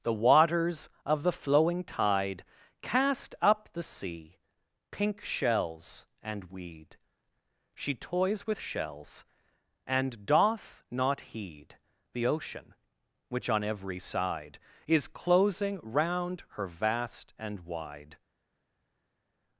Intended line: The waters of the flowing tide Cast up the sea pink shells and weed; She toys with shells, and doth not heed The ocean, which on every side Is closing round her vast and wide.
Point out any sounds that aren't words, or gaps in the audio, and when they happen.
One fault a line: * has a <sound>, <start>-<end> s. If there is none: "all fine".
all fine